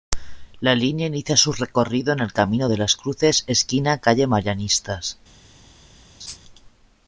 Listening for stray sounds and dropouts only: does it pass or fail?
fail